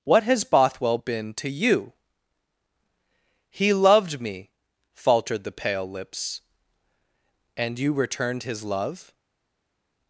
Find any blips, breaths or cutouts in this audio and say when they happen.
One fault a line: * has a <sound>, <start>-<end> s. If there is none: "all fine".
all fine